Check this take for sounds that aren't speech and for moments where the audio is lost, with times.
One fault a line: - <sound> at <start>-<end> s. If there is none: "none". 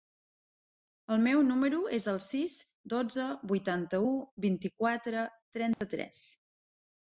- dropout at 5.7-5.8 s